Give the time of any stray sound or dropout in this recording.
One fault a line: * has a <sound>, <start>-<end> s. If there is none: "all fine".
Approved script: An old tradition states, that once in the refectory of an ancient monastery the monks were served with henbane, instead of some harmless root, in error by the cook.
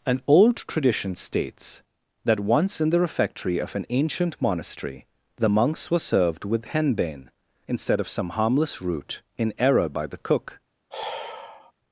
* has a sigh, 10.9-11.7 s